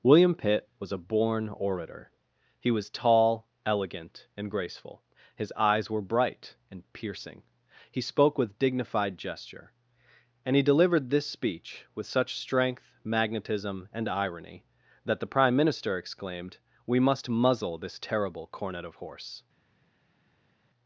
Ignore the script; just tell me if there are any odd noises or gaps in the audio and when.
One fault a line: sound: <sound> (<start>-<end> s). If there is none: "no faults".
no faults